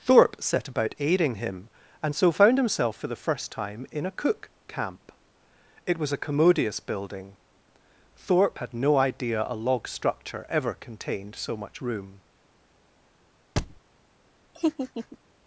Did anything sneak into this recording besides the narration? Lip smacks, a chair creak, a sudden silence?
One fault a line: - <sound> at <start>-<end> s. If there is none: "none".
- thud at 13.6-13.8 s
- laugh at 14.6-15.2 s